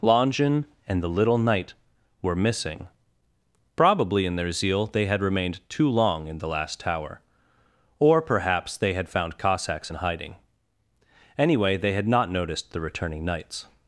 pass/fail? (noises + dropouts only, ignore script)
pass